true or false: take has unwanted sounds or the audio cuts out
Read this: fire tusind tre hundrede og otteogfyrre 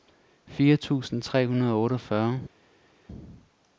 false